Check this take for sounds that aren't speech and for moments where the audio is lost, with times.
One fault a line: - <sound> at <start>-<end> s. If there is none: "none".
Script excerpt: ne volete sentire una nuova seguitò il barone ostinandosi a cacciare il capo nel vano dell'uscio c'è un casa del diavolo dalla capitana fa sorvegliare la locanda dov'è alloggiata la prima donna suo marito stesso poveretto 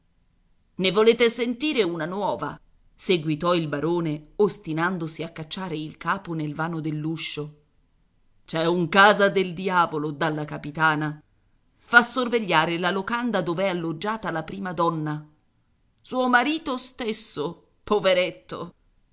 none